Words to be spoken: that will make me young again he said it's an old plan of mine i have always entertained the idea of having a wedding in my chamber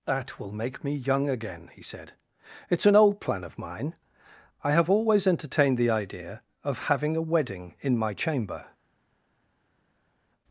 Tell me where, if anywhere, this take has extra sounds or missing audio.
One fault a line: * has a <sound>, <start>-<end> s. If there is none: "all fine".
all fine